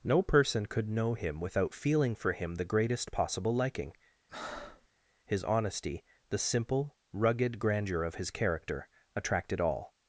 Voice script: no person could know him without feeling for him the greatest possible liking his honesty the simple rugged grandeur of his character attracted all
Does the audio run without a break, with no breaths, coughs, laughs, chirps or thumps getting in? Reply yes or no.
no